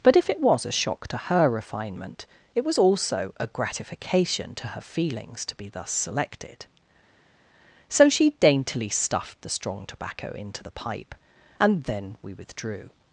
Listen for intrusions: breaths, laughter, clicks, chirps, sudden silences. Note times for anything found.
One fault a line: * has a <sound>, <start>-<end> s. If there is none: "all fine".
all fine